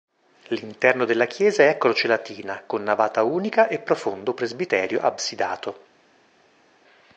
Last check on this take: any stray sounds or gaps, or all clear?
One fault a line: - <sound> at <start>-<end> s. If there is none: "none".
none